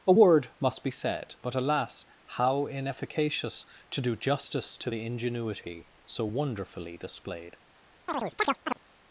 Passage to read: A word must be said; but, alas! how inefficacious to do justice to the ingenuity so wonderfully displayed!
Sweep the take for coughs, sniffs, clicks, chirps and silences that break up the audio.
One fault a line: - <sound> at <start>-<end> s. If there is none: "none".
- chirp at 8.1-8.8 s